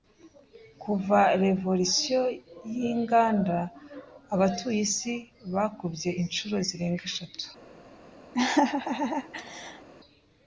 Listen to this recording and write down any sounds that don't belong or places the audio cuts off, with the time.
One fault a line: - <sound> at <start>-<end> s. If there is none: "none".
- laugh at 8.3-9.9 s